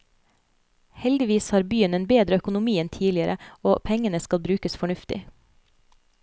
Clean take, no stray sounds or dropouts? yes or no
yes